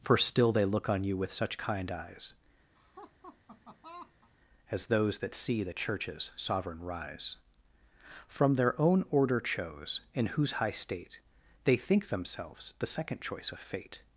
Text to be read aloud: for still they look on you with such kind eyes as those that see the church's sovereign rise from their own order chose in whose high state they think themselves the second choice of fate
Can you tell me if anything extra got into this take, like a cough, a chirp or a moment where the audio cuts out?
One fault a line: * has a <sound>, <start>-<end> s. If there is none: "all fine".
* has a laugh, 2.7-4.3 s